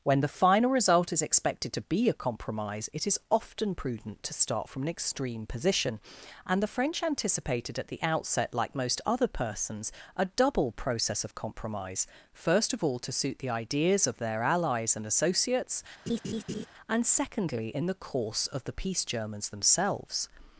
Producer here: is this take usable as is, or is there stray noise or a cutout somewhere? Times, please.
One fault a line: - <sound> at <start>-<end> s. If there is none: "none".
- laugh at 16.1-16.7 s